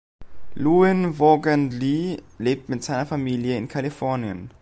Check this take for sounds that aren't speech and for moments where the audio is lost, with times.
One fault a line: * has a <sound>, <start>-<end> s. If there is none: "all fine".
all fine